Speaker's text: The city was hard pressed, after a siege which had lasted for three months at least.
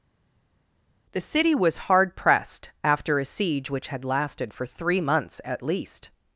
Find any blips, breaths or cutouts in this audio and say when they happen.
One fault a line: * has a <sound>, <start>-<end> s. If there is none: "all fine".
all fine